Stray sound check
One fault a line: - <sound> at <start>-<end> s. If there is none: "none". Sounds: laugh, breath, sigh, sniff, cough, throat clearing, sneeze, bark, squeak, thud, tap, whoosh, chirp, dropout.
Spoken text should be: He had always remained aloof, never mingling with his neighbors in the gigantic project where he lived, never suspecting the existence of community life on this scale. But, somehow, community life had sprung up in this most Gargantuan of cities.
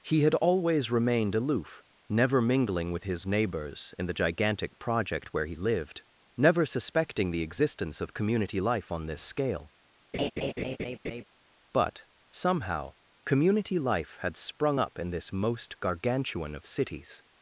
- laugh at 10.1-11.2 s